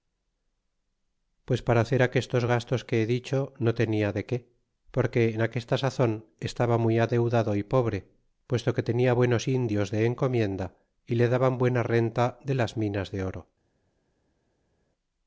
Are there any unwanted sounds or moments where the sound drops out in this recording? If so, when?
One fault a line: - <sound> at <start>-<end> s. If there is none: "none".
none